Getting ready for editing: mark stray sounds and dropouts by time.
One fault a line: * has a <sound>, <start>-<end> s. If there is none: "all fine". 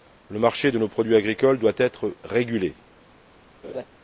* has a laugh, 3.6-3.9 s